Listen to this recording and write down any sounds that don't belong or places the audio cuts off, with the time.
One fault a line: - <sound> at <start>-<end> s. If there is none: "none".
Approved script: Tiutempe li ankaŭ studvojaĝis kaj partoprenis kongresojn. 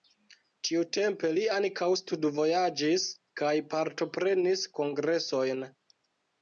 none